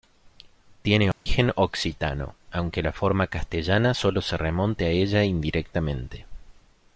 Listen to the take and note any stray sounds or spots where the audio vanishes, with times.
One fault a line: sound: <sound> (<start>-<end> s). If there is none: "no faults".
sound: dropout (1.1-1.3 s)